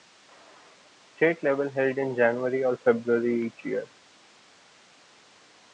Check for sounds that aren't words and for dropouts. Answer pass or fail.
pass